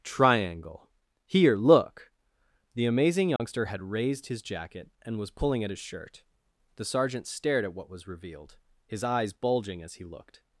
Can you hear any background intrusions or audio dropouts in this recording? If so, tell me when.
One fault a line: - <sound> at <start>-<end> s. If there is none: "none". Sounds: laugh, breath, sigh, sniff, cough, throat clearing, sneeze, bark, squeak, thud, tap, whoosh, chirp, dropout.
- dropout at 3.4-3.4 s